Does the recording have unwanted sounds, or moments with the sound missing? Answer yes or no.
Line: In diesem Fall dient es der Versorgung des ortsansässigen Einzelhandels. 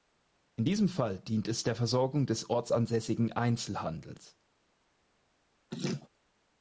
yes